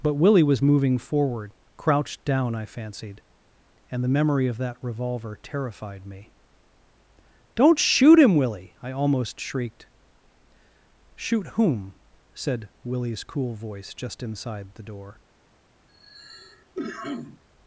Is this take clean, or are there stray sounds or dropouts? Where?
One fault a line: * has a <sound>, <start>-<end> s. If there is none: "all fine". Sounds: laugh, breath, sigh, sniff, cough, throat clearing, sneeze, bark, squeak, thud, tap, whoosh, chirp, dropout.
* has a cough, 15.9-17.4 s